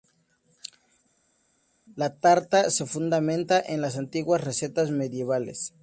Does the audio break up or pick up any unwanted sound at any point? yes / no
no